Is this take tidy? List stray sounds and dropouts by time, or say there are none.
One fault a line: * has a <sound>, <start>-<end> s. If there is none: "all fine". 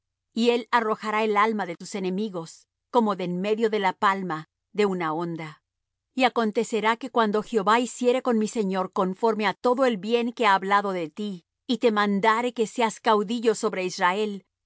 all fine